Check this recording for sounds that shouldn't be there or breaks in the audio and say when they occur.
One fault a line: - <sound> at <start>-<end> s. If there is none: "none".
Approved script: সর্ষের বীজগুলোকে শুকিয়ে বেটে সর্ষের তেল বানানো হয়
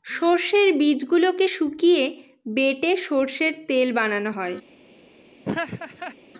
- laugh at 5.4-6.2 s